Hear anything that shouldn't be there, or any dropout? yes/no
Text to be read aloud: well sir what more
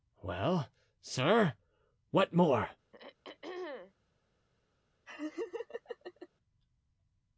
yes